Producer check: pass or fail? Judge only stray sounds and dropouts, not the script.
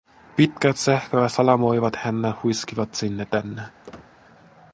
fail